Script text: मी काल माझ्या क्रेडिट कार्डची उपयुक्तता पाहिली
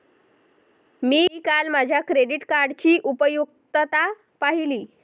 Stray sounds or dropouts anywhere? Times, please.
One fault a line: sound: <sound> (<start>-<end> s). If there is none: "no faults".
no faults